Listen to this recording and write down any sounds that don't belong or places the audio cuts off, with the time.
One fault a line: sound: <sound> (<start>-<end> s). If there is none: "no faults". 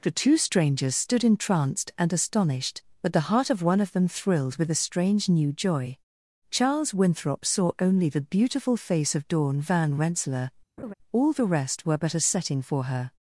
sound: laugh (10.8-10.9 s)